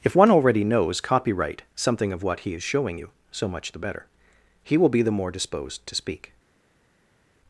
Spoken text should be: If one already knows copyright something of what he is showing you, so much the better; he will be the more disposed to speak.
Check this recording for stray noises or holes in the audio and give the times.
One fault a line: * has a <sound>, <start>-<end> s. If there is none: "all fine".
all fine